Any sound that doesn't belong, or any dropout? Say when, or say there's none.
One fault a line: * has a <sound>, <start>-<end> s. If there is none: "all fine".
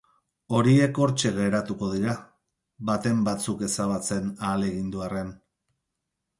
all fine